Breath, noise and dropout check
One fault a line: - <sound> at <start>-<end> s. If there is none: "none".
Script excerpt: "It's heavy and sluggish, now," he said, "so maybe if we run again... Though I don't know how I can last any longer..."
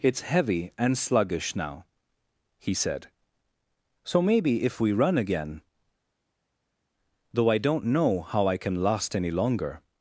none